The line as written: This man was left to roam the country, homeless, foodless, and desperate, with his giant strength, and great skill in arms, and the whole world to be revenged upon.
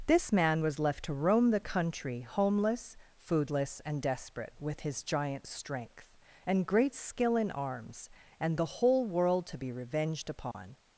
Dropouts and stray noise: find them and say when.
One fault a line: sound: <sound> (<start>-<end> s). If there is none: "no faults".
sound: dropout (10.5-10.5 s)